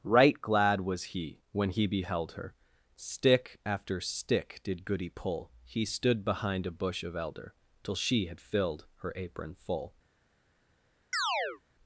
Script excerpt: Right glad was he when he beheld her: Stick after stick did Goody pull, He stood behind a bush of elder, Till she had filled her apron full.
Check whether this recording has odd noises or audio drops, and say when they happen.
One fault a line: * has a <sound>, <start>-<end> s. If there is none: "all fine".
* has a chirp, 11.1-11.6 s